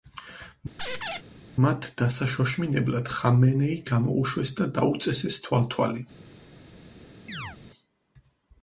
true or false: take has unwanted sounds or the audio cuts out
true